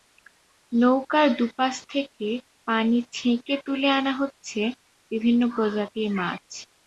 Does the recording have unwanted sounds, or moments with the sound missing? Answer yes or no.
no